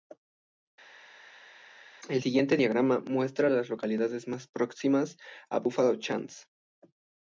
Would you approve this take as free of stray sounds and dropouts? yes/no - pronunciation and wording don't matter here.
yes